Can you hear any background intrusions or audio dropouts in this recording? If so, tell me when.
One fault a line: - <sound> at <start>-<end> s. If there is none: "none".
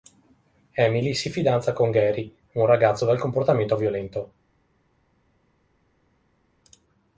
none